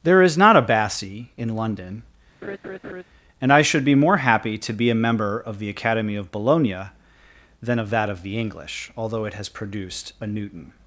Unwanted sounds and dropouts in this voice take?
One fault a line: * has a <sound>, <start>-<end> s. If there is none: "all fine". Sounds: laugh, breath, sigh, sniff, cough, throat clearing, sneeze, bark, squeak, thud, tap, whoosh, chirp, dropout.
* has a laugh, 2.4-3.0 s